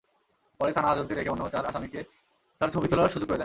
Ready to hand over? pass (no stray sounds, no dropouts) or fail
pass